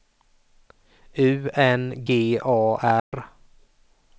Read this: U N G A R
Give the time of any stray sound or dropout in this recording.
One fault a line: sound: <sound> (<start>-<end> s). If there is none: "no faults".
sound: dropout (3.0-3.1 s)